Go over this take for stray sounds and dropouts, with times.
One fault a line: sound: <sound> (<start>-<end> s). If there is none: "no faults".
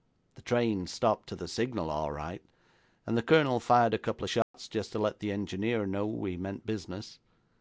sound: dropout (4.4-4.5 s)